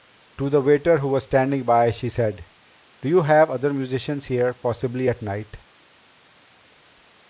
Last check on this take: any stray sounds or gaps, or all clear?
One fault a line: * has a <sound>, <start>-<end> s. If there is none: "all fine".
all fine